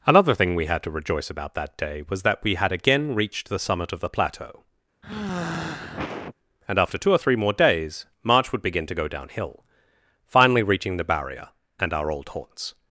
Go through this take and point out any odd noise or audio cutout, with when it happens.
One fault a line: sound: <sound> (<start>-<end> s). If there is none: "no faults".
sound: sigh (5.0-6.4 s)